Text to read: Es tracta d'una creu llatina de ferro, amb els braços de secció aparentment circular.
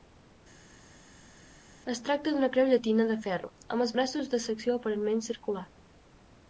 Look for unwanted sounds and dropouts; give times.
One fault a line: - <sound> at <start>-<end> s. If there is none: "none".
none